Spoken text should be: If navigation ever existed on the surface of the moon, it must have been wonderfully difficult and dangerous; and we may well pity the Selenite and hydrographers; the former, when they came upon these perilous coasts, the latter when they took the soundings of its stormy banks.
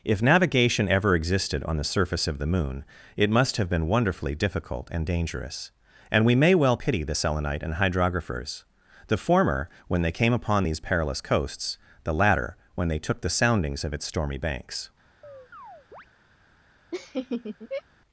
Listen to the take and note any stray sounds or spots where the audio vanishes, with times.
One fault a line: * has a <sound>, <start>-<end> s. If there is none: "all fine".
* has a chirp, 15.2-16.1 s
* has a laugh, 16.9-17.8 s